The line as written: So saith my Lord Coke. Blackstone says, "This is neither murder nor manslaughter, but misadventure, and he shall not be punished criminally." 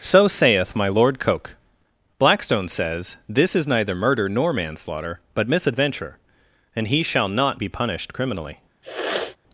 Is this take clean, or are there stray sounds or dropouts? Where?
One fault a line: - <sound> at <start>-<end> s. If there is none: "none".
- sniff at 8.8-9.4 s